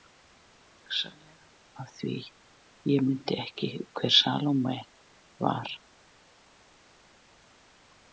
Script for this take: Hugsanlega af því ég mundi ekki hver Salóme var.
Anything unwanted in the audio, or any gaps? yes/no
no